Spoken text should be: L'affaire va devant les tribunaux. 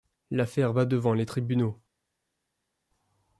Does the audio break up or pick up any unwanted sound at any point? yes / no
no